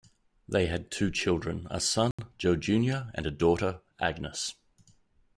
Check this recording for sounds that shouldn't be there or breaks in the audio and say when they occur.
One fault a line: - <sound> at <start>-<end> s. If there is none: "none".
- dropout at 2.1-2.2 s